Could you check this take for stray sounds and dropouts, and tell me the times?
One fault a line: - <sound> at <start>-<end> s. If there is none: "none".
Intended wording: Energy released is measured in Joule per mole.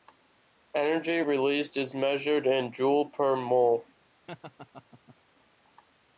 - laugh at 4.3-5.2 s